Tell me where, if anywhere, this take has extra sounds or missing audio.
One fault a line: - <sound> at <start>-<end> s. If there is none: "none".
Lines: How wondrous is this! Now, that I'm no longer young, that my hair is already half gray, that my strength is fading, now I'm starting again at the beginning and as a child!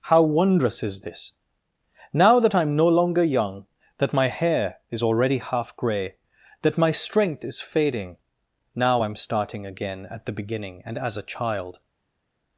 none